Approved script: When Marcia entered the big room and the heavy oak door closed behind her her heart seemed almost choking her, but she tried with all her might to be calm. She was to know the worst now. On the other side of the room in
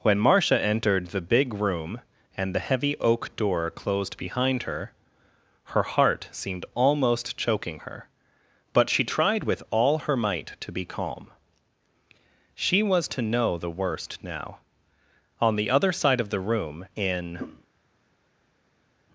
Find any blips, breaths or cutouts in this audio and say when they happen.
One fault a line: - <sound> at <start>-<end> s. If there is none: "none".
none